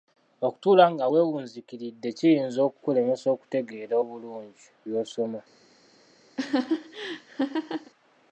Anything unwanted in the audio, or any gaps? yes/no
yes